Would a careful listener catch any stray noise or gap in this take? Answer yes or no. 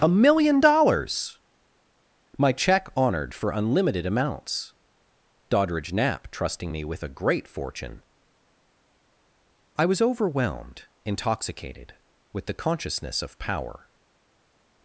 no